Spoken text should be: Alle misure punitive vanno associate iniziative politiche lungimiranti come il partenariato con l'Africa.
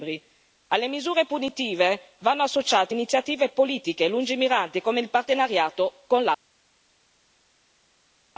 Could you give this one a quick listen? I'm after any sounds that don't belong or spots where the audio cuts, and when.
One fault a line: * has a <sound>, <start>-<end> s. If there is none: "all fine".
all fine